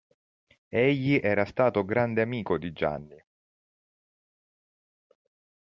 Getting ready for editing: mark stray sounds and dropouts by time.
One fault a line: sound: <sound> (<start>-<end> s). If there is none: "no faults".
no faults